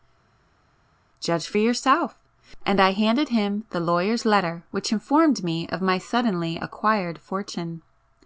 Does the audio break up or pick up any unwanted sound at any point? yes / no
no